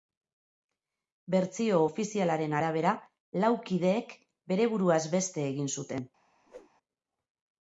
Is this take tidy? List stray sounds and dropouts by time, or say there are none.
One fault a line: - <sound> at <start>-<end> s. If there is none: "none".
- whoosh at 6.5-6.7 s